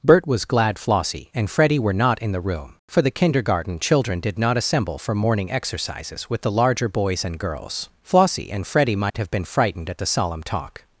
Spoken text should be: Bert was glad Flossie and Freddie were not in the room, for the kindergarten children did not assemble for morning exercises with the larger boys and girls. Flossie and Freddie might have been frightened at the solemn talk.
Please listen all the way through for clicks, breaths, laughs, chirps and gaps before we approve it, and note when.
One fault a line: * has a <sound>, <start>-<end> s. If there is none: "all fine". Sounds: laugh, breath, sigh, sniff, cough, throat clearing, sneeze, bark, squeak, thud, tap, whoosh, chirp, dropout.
* has a dropout, 9.1-9.1 s